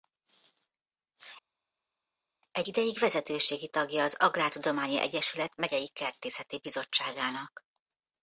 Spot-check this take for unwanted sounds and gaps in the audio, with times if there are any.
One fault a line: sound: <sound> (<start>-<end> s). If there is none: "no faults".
no faults